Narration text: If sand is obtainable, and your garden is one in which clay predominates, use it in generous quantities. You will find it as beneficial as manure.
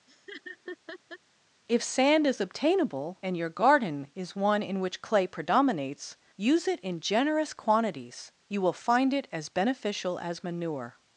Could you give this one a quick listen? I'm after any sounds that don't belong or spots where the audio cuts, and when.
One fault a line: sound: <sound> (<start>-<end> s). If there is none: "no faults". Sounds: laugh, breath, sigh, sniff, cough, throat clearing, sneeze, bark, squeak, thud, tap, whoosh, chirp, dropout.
sound: laugh (0.1-1.2 s)